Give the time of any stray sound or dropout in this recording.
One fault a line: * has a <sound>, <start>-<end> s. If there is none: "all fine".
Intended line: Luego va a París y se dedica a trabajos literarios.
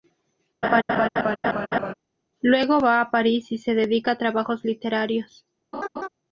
* has a laugh, 0.6-1.9 s
* has a laugh, 5.7-6.1 s